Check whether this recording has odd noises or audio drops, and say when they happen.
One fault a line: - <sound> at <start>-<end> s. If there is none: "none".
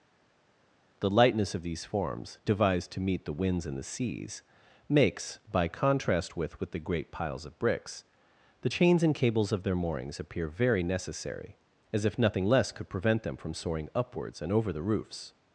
none